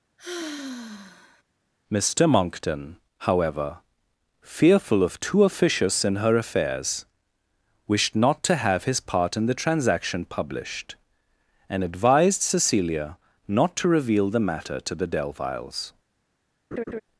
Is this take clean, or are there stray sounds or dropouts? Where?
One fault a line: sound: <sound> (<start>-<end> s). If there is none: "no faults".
sound: sigh (0.2-1.4 s)
sound: laugh (16.7-17.0 s)